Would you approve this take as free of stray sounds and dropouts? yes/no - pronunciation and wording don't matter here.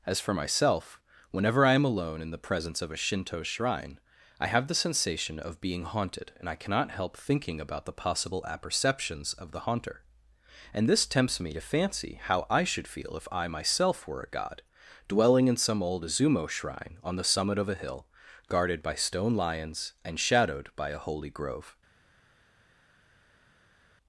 yes